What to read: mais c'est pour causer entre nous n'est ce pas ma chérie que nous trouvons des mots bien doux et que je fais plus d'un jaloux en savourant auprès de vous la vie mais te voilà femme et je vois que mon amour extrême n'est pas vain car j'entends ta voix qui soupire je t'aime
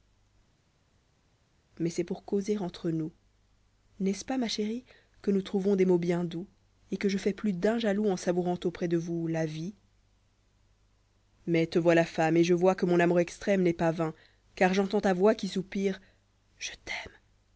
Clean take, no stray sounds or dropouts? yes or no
yes